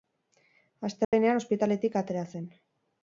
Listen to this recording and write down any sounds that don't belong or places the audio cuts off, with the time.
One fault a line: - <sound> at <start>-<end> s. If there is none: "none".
- dropout at 1.0-1.1 s